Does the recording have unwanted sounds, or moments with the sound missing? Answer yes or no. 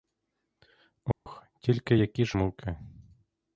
yes